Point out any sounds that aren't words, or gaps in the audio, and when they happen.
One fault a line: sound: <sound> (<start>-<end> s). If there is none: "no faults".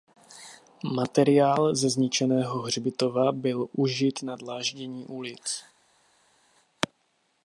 no faults